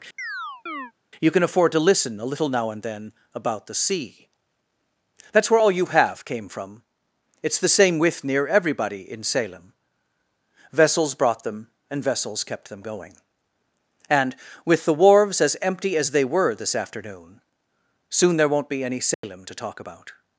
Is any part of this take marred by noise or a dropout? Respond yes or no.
yes